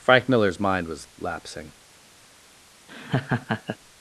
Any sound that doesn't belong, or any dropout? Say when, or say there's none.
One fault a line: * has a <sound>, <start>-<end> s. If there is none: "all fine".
* has a laugh, 2.9-3.8 s